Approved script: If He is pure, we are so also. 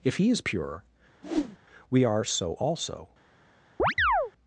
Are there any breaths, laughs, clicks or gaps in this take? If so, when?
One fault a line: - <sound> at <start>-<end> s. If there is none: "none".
- whoosh at 1.2-1.6 s
- chirp at 3.8-4.3 s